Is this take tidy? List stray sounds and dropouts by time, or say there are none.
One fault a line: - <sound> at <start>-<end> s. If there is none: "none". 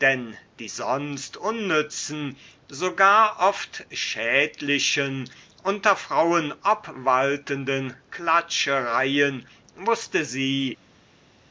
none